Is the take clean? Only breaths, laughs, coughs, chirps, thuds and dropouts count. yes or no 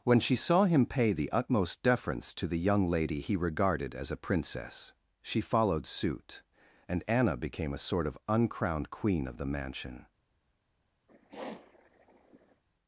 no